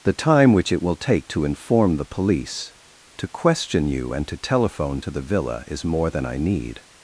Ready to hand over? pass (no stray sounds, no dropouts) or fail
pass